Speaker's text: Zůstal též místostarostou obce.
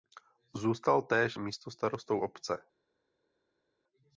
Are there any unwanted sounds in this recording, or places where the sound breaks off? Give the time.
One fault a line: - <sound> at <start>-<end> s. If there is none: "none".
none